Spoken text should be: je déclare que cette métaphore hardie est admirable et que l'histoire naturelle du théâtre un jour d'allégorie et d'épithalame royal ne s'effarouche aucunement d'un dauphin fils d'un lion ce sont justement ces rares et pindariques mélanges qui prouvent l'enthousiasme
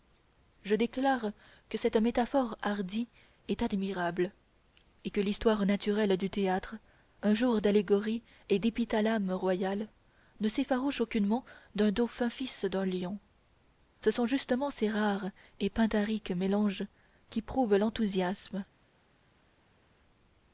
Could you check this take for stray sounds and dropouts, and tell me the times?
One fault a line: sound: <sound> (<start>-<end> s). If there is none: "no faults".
no faults